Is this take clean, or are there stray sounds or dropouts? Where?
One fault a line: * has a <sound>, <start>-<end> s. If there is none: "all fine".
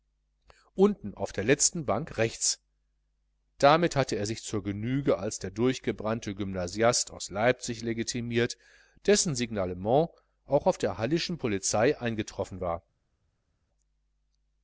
all fine